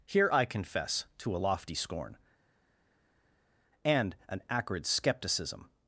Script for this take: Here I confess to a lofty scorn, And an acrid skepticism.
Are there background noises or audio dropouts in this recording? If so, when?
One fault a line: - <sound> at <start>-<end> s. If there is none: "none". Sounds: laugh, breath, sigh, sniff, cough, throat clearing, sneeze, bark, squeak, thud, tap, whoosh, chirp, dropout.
none